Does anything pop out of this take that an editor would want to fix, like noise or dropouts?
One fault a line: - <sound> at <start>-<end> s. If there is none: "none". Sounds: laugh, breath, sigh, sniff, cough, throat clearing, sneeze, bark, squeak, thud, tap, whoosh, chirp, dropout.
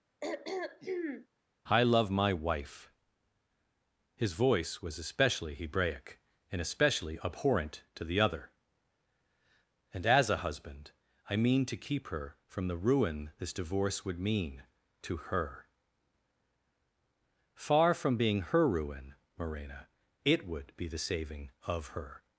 - throat clearing at 0.2-1.3 s